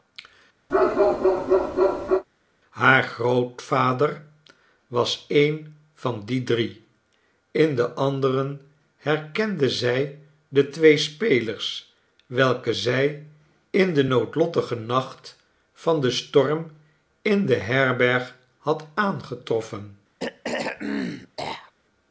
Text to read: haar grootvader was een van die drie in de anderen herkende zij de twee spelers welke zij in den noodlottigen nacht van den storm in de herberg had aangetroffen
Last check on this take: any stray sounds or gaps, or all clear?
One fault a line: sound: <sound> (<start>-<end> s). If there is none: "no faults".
sound: bark (0.7-2.2 s)
sound: throat clearing (20.2-21.7 s)